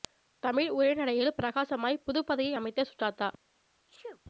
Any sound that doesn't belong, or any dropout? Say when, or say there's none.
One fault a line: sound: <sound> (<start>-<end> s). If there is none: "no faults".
sound: sneeze (3.9-4.2 s)